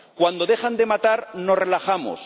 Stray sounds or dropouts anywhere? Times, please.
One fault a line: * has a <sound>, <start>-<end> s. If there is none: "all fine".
all fine